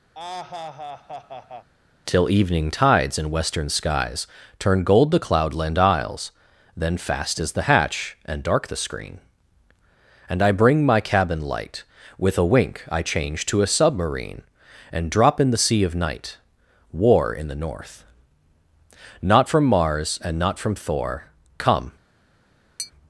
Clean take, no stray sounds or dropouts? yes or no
no